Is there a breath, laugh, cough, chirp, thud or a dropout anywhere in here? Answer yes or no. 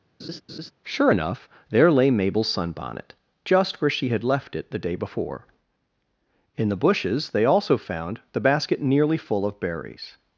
yes